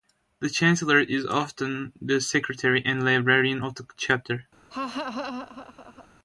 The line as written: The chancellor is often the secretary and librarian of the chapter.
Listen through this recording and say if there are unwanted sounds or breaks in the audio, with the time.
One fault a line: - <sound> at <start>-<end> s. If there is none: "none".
- laugh at 4.7-6.1 s